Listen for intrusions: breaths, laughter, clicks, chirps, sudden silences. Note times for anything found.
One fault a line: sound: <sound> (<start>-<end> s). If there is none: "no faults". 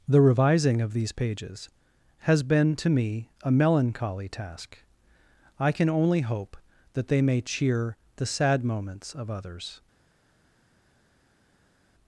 no faults